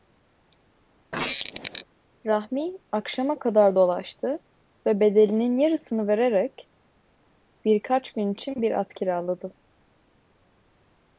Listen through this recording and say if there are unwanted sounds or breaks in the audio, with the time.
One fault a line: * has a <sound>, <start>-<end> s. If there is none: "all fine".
* has a squeak, 1.1-1.8 s